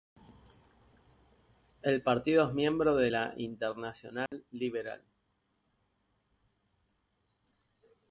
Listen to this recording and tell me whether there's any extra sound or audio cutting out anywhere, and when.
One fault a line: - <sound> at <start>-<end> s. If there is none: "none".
- dropout at 4.3-4.3 s